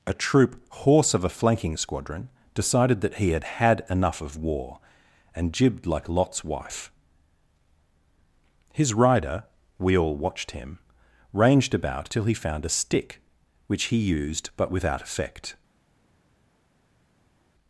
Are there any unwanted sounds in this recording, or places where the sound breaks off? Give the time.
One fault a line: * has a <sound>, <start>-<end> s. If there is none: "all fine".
all fine